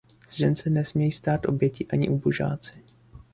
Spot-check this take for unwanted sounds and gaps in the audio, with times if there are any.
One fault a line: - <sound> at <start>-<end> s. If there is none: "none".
none